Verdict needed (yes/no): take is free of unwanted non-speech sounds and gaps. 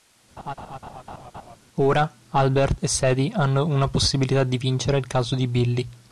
no